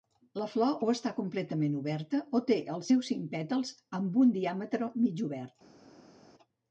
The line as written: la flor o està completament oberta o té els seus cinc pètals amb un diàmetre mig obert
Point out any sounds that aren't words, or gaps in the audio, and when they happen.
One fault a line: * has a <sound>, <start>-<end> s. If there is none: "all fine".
all fine